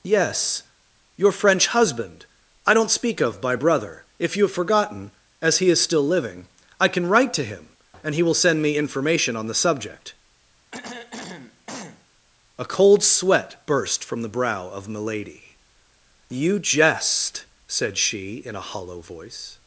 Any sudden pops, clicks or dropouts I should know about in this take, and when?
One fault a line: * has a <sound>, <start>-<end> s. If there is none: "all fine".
* has a throat clearing, 10.7-12.1 s